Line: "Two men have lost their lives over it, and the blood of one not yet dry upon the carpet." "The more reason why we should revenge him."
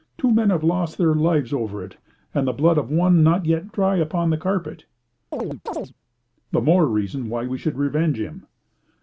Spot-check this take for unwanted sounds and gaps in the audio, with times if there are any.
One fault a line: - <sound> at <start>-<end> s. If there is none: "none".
- chirp at 5.3-5.9 s